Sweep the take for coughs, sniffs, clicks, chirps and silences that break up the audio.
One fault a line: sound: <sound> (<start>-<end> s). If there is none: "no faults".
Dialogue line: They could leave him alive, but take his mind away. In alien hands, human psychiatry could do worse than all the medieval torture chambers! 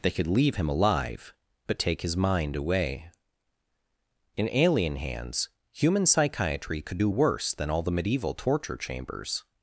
no faults